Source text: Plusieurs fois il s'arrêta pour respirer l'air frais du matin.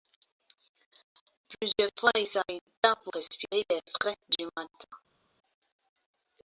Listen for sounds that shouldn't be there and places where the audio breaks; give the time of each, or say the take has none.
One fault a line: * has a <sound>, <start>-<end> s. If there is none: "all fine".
all fine